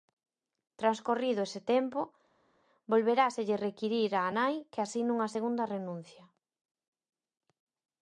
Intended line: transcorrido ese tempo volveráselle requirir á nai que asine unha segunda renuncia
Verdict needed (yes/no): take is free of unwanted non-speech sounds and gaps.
yes